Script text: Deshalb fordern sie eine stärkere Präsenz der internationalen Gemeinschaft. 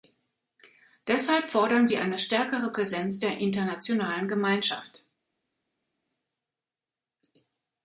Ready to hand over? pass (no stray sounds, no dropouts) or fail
pass